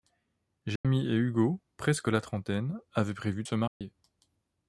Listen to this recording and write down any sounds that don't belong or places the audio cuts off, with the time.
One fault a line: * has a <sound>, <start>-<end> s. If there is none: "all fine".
* has a dropout, 0.8-0.8 s
* has a dropout, 3.7-3.8 s